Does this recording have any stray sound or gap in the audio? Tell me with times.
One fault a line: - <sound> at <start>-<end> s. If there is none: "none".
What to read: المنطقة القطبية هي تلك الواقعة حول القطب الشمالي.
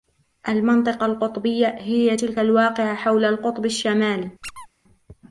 - squeak at 4.4-4.7 s